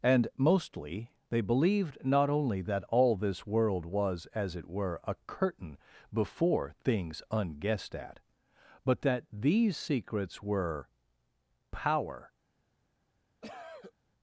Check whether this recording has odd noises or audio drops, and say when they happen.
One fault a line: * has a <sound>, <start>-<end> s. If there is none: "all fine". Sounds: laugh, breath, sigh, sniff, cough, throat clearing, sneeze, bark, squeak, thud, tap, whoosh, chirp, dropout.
* has a cough, 13.4-13.9 s